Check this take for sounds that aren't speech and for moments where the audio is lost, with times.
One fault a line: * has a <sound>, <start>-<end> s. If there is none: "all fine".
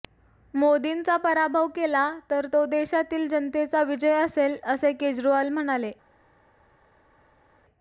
all fine